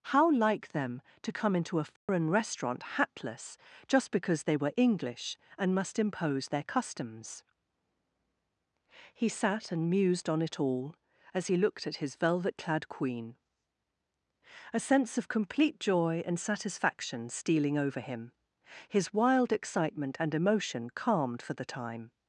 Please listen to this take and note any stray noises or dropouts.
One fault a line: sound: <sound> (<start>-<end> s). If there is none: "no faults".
sound: dropout (2.0-2.1 s)